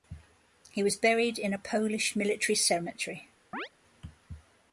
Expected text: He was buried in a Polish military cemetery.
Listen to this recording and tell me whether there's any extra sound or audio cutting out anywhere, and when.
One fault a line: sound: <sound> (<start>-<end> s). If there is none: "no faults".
sound: chirp (3.5-3.7 s)